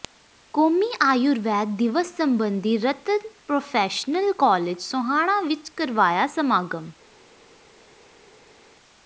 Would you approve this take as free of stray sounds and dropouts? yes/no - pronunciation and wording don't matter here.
yes